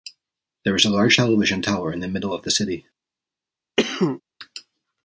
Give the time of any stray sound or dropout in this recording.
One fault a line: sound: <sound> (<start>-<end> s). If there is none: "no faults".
sound: cough (3.8-4.2 s)